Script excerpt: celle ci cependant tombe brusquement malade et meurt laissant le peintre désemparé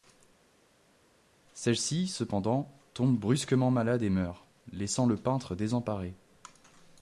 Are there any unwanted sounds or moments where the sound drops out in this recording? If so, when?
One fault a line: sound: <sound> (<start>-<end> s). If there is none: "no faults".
no faults